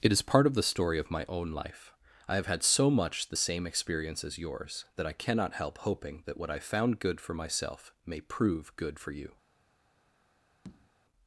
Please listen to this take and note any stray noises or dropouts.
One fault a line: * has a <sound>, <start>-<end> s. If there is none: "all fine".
* has a tap, 10.6-10.9 s